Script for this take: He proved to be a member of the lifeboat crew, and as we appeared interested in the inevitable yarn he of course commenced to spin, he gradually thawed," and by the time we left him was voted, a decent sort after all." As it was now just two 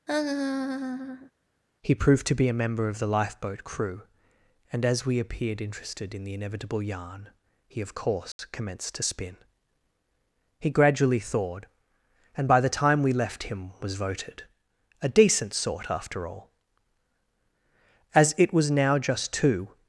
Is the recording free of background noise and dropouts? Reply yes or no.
no